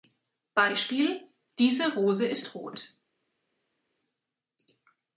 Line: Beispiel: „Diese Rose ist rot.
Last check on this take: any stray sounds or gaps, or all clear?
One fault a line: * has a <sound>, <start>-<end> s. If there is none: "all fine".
all fine